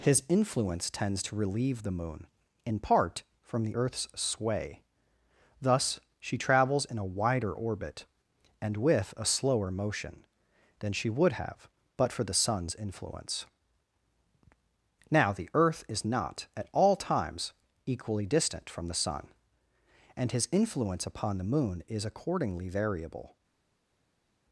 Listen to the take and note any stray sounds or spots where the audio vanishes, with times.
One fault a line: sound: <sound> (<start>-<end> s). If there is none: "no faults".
no faults